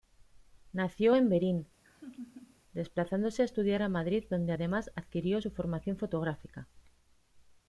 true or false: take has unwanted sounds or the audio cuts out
true